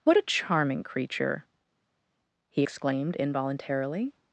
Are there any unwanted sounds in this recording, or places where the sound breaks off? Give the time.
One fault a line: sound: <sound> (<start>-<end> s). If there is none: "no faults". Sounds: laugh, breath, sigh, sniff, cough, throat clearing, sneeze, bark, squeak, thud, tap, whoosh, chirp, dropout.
no faults